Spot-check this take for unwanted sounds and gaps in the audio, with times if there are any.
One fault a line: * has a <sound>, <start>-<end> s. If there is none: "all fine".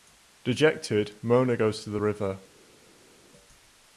all fine